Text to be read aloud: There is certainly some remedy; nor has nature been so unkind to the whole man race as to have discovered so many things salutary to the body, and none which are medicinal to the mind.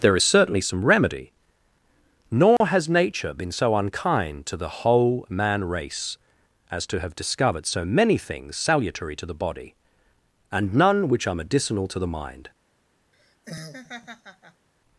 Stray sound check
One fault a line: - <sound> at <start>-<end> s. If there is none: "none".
- dropout at 2.6-2.6 s
- laugh at 13.1-14.7 s